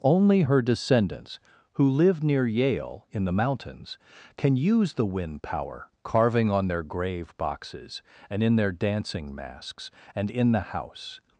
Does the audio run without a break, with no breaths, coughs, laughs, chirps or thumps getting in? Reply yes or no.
yes